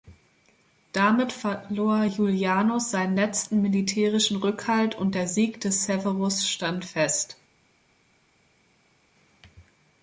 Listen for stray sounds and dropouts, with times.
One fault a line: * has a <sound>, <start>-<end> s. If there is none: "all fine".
all fine